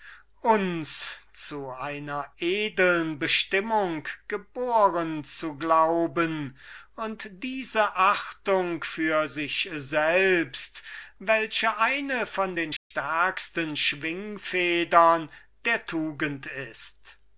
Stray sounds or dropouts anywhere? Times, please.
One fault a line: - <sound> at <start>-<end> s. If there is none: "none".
- dropout at 12.8-12.9 s